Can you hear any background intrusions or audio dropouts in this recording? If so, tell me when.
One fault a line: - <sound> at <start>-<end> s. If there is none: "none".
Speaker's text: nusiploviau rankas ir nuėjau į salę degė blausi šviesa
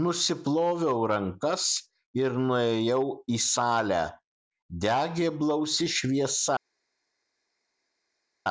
none